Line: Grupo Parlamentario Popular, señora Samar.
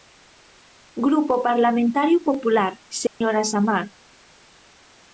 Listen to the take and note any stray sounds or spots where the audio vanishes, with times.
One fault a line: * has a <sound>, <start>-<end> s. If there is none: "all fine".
* has a dropout, 3.1-3.2 s